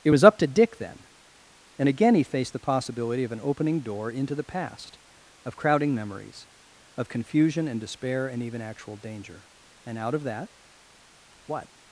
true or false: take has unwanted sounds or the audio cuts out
false